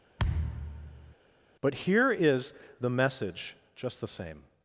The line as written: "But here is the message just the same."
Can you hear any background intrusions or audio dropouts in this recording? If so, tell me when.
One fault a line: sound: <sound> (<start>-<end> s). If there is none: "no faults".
sound: thud (0.2-1.2 s)